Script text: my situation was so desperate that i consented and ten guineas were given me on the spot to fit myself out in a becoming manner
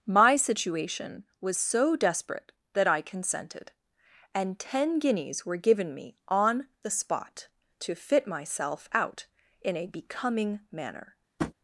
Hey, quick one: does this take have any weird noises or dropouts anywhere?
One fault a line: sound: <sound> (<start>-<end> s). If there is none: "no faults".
sound: tap (11.4-11.5 s)